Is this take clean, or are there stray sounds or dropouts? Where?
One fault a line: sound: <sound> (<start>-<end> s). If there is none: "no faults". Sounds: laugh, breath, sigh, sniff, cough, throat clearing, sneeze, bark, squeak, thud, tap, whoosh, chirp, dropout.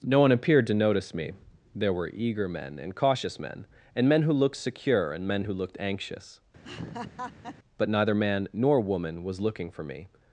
sound: laugh (6.6-7.6 s)